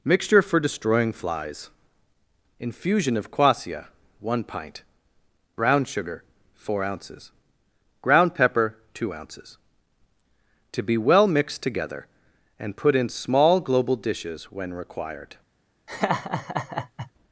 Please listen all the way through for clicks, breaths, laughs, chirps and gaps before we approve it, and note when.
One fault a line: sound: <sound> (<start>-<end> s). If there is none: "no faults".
sound: laugh (15.9-17.1 s)